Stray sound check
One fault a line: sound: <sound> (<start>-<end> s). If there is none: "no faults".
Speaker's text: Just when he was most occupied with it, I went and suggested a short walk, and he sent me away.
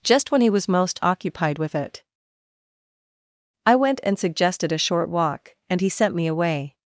no faults